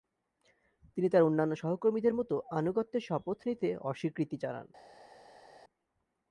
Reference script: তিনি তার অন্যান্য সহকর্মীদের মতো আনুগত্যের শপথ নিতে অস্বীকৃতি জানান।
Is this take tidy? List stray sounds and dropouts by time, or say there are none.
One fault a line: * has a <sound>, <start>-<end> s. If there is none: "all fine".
all fine